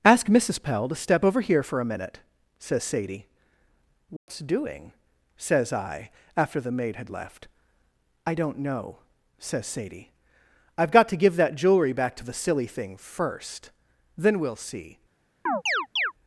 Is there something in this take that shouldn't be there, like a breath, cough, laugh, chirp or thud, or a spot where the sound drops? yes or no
yes